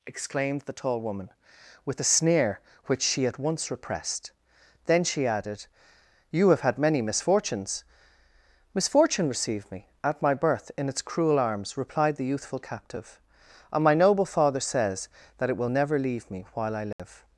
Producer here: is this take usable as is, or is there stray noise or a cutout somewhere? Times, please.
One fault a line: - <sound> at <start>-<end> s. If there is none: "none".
- dropout at 16.9-17.0 s